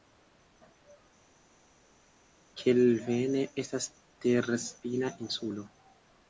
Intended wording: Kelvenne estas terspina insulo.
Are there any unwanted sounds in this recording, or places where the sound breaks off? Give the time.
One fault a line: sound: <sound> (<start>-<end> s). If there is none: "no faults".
no faults